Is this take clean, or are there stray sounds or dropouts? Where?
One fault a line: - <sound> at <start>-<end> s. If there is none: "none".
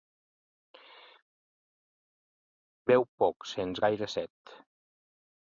none